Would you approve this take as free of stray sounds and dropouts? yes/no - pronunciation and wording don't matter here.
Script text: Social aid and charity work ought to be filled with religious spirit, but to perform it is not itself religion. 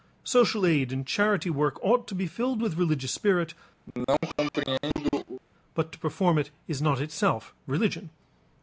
no